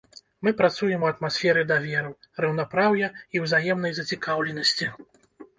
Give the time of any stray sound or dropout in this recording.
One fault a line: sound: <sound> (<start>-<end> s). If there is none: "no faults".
no faults